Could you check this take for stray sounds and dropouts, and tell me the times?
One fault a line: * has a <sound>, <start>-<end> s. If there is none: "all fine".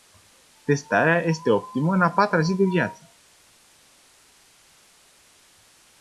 all fine